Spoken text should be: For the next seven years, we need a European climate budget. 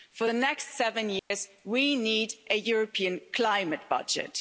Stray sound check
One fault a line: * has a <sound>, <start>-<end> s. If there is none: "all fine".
* has a dropout, 1.2-1.3 s